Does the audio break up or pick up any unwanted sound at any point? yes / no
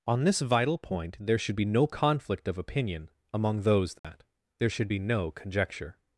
yes